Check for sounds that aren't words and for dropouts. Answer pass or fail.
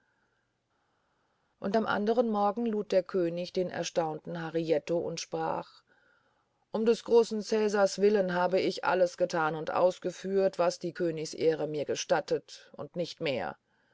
pass